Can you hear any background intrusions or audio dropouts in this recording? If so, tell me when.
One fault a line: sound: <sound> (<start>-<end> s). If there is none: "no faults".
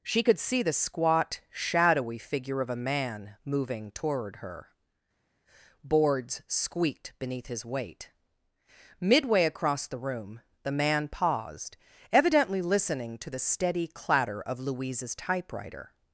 no faults